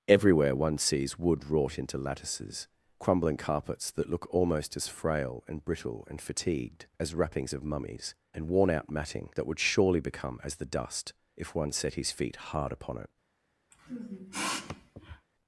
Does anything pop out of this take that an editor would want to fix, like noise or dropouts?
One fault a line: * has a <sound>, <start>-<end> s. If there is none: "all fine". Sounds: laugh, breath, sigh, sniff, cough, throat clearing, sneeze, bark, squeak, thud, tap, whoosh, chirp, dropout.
* has a sniff, 13.7-15.3 s